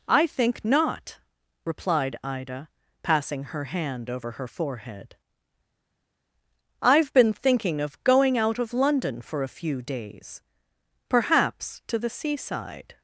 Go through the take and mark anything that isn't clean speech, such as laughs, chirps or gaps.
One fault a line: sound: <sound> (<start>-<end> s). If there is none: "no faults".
no faults